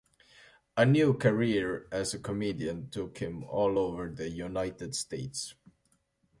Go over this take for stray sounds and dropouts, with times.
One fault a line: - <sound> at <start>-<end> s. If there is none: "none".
none